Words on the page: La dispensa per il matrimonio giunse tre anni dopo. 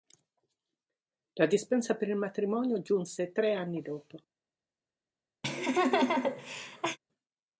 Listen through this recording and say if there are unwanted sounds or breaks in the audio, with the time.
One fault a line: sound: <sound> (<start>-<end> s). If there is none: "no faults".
sound: laugh (5.4-7.0 s)